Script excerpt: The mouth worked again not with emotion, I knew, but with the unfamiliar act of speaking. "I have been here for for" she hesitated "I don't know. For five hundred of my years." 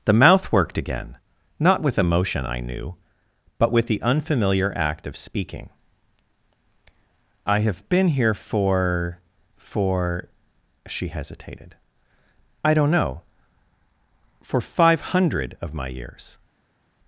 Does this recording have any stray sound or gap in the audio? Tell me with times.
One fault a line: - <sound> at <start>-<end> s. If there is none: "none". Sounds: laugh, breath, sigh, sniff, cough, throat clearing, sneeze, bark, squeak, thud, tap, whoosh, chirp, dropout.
none